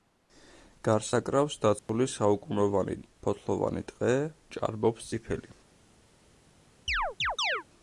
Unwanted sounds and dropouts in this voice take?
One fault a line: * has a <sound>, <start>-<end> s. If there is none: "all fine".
* has a dropout, 1.8-1.9 s
* has a chirp, 6.9-7.6 s